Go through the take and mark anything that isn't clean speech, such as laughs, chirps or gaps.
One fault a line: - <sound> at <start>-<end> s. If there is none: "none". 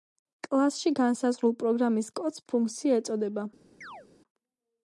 - chirp at 3.8-4.1 s